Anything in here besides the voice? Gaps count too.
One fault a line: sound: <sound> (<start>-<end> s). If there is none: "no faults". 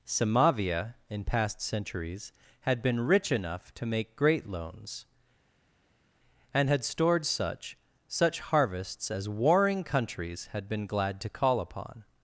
no faults